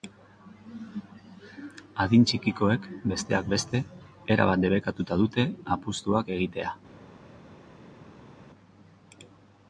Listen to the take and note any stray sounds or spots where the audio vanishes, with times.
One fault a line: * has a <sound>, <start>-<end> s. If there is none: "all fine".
all fine